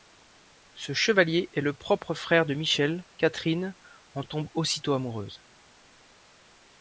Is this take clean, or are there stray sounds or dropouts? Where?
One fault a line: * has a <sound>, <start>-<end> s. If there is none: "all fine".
all fine